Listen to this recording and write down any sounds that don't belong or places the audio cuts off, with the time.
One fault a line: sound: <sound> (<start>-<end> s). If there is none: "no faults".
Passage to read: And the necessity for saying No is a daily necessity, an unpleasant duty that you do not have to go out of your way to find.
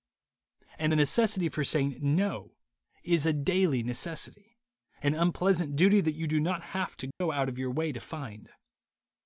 sound: dropout (7.1-7.2 s)